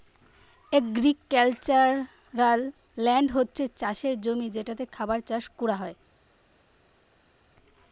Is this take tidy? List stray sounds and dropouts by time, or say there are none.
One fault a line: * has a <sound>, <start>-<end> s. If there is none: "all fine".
all fine